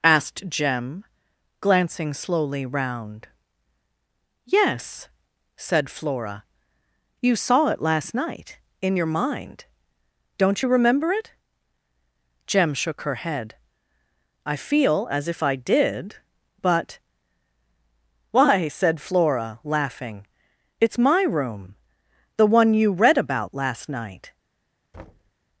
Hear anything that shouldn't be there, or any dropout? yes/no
yes